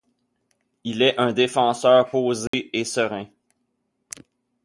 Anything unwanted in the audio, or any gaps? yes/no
yes